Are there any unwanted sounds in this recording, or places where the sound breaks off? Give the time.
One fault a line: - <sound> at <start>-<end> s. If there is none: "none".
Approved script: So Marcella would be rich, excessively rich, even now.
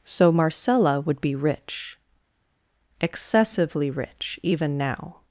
none